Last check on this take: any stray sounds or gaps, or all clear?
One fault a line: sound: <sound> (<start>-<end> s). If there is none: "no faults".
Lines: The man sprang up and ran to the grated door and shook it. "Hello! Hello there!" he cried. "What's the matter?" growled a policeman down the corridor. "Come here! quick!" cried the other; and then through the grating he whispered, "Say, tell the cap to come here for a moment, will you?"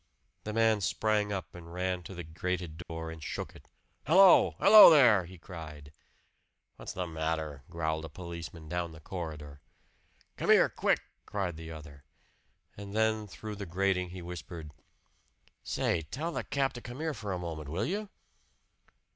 sound: dropout (2.8-2.9 s)